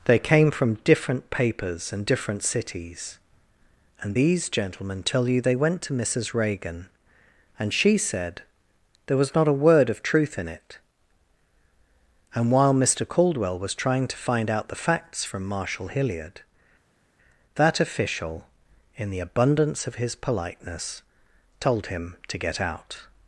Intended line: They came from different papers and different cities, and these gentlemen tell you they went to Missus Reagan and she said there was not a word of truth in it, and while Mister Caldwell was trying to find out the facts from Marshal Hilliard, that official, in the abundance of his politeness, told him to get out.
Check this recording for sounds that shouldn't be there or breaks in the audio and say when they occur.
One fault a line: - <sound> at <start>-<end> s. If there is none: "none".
none